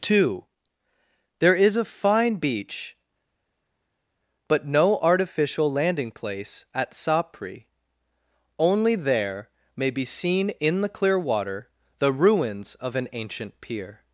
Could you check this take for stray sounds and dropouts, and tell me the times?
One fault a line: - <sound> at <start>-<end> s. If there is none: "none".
none